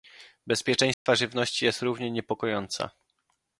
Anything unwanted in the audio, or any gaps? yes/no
yes